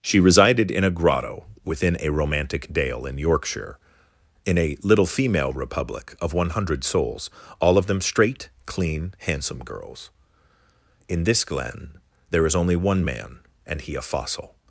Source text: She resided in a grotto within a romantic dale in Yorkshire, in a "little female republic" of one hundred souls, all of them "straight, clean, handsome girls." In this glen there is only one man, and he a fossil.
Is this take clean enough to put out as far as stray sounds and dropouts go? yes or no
yes